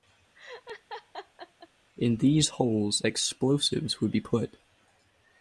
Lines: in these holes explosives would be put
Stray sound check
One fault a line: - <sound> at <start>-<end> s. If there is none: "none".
- laugh at 0.3-1.7 s